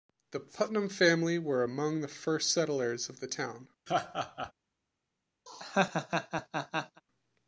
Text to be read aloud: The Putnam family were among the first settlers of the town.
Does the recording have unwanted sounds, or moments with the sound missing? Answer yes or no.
yes